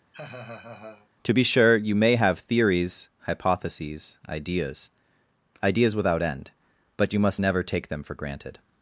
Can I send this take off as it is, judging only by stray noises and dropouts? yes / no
no